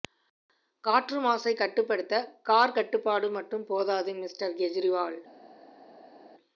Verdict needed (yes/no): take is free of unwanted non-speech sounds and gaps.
yes